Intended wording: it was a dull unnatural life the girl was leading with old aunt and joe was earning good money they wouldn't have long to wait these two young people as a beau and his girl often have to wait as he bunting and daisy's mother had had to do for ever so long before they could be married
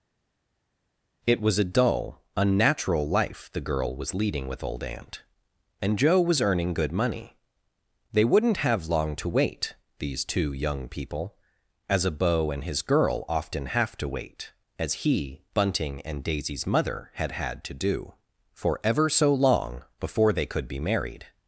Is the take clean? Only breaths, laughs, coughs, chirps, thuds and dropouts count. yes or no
yes